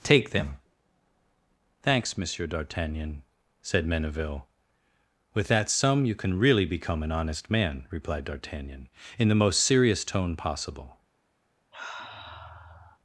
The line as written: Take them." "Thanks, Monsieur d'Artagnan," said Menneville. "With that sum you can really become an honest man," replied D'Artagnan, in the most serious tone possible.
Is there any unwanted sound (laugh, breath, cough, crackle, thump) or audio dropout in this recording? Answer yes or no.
yes